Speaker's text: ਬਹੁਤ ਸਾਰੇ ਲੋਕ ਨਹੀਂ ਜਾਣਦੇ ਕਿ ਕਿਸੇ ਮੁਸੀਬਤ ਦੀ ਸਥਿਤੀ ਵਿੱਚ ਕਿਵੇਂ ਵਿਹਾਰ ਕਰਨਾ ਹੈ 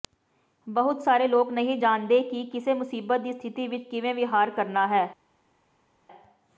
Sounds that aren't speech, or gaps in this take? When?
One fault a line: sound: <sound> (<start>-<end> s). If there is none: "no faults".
no faults